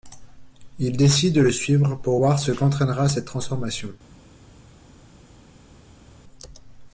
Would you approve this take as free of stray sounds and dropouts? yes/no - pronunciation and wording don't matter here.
yes